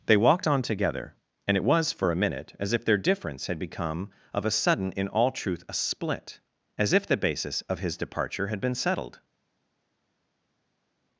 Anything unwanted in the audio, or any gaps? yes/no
no